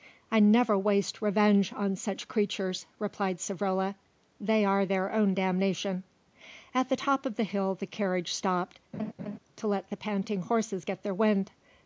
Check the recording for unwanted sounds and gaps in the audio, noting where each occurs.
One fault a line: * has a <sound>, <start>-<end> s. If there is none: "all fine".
* has a laugh, 8.9-9.4 s